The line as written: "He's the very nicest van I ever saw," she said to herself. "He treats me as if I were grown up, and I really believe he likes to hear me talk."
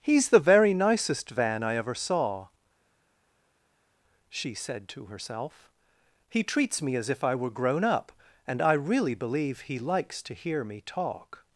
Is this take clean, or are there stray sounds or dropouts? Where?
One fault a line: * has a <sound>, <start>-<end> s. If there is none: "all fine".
all fine